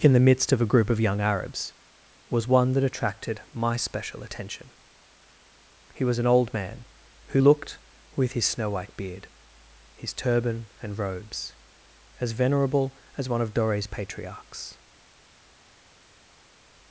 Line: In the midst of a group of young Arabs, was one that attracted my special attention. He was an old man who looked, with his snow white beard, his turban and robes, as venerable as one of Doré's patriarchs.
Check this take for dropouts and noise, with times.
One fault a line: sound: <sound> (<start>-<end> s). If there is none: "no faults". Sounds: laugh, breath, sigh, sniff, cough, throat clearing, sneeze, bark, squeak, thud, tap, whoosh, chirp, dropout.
no faults